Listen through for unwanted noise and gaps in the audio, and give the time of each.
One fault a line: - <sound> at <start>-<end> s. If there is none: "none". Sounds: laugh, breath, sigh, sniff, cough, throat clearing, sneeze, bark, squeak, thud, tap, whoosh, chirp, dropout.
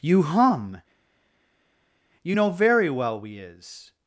none